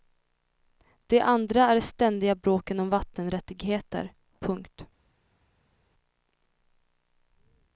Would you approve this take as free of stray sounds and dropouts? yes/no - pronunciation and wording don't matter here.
yes